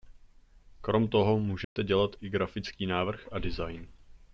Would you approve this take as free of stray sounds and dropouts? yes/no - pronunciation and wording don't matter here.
no